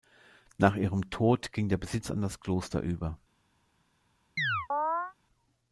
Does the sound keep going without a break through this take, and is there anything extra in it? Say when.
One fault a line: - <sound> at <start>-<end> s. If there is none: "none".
- chirp at 4.4-5.1 s